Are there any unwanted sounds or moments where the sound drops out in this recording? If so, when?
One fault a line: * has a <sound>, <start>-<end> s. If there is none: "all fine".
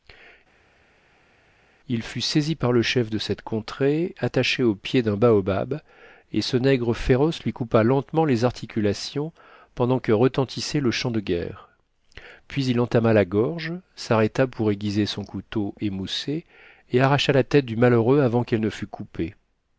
all fine